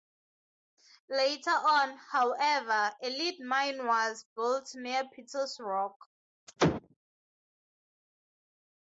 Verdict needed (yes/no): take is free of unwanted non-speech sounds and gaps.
yes